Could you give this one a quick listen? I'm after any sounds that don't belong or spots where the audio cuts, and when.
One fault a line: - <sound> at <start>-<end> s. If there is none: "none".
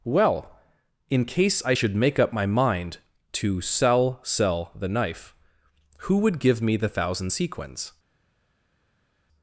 none